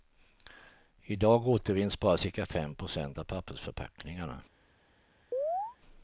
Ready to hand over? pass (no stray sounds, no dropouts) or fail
fail